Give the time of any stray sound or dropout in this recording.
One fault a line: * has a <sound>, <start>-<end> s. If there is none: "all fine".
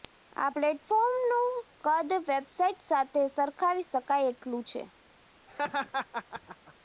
* has a laugh, 5.5-6.7 s